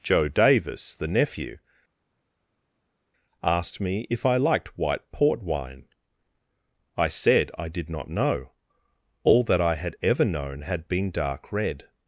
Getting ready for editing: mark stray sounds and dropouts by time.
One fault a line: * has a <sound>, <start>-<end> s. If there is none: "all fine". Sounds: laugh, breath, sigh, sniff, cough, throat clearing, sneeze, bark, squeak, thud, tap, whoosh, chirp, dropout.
all fine